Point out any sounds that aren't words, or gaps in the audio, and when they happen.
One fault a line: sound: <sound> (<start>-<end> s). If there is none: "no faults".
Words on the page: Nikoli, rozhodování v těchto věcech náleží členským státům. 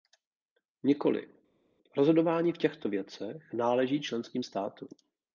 no faults